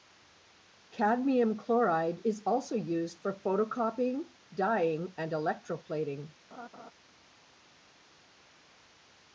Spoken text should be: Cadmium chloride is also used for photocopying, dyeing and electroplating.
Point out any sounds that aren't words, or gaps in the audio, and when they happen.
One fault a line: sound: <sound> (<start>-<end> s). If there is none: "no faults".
sound: laugh (6.5-6.9 s)